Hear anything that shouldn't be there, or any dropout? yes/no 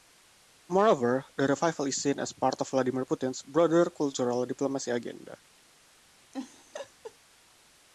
yes